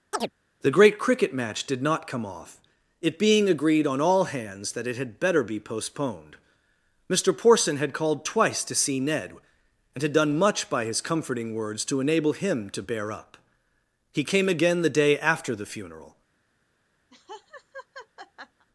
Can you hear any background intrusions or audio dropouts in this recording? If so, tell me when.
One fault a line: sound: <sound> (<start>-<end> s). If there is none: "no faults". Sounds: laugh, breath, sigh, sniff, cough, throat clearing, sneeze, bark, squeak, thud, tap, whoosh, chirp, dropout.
sound: chirp (0.1-0.3 s)
sound: laugh (17.1-18.7 s)